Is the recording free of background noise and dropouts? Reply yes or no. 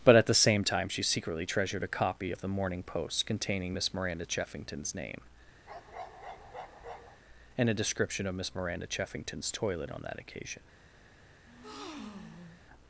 no